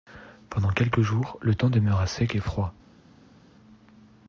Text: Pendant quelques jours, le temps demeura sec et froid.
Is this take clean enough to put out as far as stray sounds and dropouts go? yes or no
yes